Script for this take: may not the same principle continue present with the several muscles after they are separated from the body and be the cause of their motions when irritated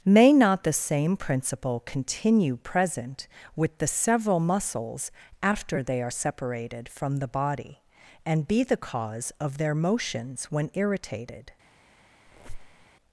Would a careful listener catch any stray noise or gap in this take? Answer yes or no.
yes